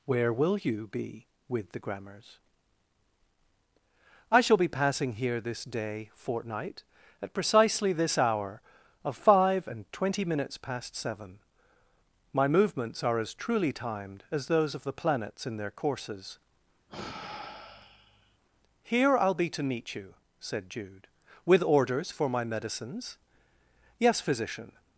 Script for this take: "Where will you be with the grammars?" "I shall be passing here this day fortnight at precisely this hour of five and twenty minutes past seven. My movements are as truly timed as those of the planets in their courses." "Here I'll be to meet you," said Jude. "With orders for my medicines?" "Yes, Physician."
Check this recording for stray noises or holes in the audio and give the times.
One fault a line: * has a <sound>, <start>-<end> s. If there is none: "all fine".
* has a sigh, 16.9-18.4 s